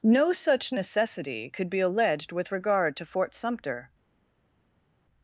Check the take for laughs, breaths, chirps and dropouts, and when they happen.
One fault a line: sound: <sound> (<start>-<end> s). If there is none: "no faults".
no faults